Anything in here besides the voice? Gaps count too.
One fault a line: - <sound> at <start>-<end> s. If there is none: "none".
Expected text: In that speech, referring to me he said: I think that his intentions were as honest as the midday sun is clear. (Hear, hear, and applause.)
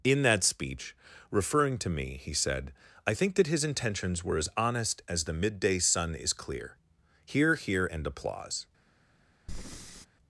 - breath at 9.5-10.1 s